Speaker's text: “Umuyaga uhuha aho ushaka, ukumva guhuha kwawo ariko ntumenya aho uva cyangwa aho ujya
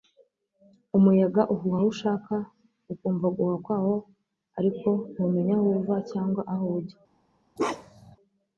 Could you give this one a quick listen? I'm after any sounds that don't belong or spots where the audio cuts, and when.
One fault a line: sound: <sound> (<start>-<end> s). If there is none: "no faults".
sound: bark (7.6-8.2 s)